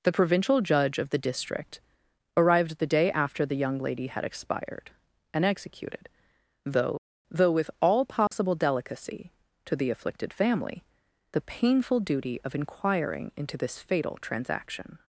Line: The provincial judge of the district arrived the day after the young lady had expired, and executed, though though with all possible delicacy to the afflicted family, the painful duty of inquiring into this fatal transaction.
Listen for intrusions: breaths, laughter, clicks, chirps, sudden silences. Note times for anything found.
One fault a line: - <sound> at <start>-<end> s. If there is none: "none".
- dropout at 8.3-8.3 s